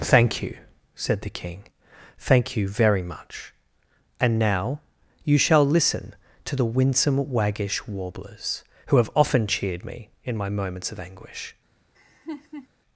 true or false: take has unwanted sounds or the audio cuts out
true